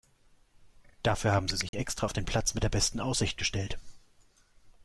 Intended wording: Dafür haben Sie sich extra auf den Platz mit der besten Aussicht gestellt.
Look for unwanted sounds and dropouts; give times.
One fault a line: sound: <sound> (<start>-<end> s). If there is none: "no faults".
sound: dropout (1.7-1.7 s)